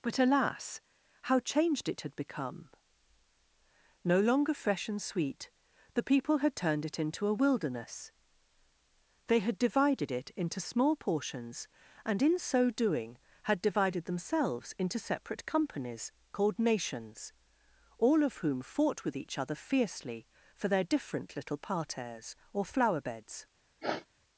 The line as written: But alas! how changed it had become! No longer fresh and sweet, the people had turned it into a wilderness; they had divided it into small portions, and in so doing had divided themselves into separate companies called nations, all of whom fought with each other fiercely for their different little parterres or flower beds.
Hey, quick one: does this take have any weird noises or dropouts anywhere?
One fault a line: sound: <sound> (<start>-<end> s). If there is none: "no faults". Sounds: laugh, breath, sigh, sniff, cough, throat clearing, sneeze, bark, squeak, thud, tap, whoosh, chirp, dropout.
sound: sniff (23.8-24.1 s)